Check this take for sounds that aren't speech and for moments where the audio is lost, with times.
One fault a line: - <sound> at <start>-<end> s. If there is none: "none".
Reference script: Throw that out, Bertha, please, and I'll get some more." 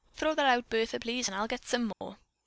- dropout at 1.9-2.0 s